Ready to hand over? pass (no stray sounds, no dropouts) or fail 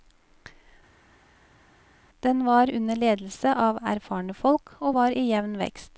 pass